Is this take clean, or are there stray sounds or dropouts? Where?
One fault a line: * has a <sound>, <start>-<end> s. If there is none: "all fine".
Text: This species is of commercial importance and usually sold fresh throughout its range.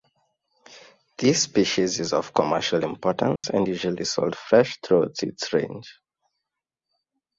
* has a dropout, 3.4-3.4 s